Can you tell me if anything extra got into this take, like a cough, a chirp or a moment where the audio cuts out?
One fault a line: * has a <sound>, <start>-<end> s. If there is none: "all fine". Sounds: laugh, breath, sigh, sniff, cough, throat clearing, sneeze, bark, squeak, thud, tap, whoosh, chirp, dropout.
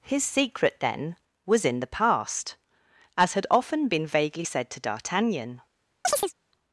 * has a chirp, 6.0-6.3 s